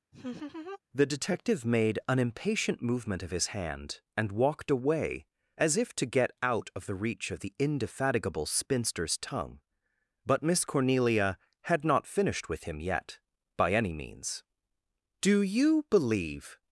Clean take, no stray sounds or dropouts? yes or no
no